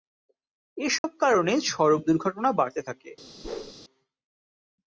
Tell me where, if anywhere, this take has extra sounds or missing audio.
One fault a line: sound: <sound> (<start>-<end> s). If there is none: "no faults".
sound: dropout (1.0-1.0 s)
sound: whoosh (3.4-3.7 s)